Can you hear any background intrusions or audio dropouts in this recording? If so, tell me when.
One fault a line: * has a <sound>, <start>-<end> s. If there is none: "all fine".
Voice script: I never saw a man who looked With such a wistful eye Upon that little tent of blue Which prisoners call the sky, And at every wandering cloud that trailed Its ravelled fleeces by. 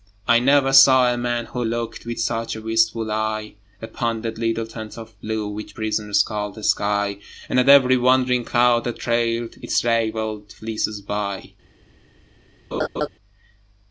* has a laugh, 12.7-13.1 s